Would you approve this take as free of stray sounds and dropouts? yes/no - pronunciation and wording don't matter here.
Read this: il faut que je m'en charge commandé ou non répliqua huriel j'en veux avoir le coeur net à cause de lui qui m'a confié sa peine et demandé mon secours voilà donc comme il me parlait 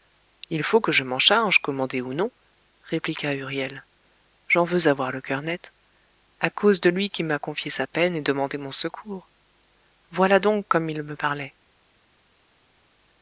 yes